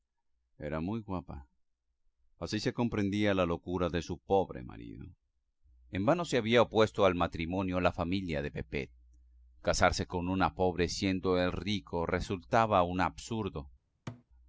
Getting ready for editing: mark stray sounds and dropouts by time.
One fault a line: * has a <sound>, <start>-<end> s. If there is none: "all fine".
* has a thud, 14.1-14.2 s